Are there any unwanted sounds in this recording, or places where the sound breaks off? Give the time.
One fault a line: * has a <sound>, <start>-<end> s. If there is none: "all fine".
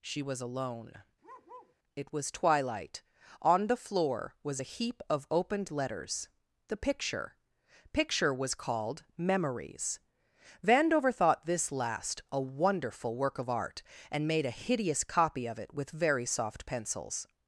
* has a bark, 1.2-1.8 s